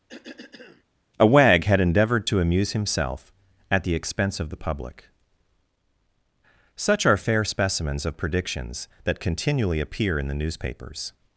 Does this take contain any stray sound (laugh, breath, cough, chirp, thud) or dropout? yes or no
yes